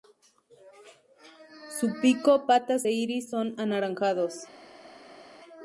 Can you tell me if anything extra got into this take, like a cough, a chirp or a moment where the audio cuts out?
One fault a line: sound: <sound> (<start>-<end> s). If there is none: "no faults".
no faults